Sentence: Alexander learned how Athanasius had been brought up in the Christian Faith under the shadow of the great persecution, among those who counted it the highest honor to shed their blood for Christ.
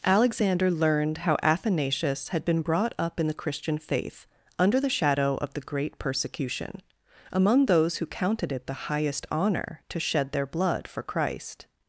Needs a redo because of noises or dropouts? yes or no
no